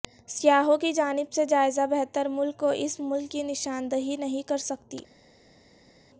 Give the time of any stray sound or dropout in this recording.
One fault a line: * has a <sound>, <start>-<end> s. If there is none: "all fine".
all fine